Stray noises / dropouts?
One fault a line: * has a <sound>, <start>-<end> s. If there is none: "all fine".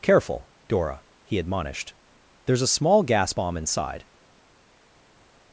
all fine